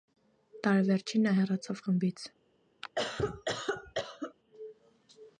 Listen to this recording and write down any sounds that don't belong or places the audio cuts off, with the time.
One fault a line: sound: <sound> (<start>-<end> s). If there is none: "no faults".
sound: cough (2.8-4.3 s)